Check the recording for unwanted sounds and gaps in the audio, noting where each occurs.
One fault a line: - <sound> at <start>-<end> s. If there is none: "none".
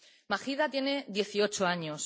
none